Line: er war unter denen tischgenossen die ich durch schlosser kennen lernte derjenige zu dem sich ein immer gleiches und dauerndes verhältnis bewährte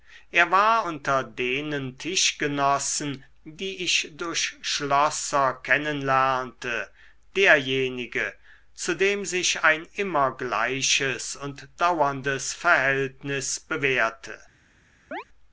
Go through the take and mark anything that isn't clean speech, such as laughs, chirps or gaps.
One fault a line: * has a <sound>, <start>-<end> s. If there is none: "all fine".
* has a chirp, 15.1-15.2 s